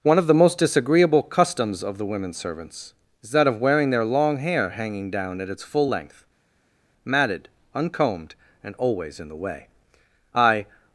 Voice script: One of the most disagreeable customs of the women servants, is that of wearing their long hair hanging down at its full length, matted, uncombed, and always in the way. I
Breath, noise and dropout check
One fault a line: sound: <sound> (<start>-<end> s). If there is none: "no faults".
no faults